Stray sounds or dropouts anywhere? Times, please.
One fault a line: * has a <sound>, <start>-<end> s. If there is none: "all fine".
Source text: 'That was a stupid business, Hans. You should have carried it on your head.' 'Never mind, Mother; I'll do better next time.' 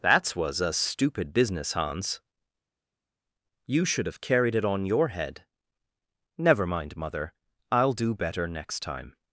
all fine